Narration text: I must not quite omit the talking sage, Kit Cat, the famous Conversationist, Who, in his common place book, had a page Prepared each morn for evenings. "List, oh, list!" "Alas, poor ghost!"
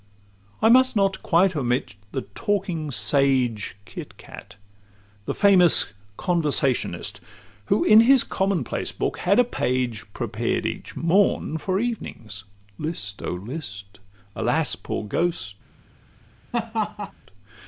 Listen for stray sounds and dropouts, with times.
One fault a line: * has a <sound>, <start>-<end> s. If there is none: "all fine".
* has a laugh, 16.5-17.1 s